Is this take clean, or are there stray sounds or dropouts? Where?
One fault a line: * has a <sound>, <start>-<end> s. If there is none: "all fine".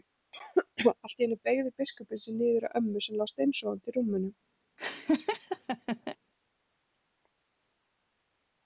* has a laugh, 4.8-6.2 s